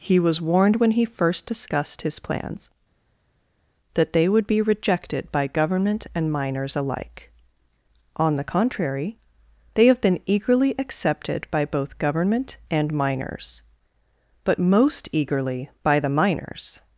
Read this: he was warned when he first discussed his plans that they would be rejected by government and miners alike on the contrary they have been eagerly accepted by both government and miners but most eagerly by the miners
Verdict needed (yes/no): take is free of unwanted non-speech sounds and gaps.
yes